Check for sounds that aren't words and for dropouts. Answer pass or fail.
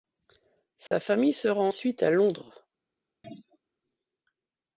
fail